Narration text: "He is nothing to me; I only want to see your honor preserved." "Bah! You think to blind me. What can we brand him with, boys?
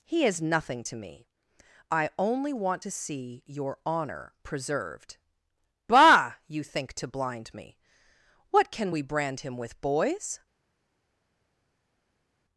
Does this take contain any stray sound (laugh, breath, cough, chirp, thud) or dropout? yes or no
no